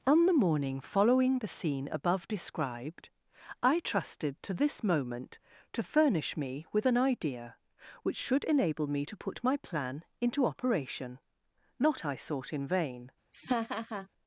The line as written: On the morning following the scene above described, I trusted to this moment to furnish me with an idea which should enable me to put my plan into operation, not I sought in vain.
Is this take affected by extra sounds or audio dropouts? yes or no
yes